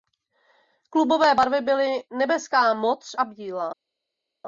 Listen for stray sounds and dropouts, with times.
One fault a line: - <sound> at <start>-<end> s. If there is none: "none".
none